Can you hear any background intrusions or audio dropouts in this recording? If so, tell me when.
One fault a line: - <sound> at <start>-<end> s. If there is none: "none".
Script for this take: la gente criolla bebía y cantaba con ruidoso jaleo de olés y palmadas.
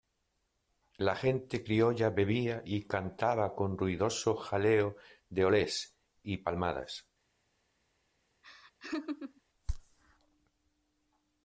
- laugh at 8.4-9.4 s